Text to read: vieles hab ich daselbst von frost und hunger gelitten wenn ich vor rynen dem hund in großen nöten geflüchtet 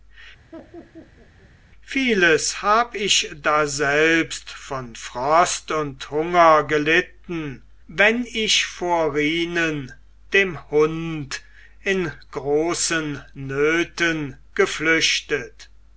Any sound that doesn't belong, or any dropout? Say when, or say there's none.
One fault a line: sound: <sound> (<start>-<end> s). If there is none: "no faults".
sound: laugh (0.5-1.5 s)